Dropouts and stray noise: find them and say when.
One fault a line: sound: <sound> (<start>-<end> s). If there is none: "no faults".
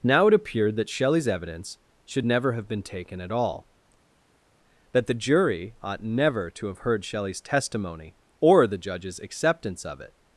no faults